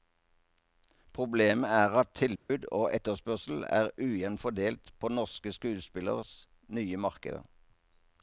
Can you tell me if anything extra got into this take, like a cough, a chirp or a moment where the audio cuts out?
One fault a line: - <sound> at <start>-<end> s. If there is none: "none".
- dropout at 2.4-2.5 s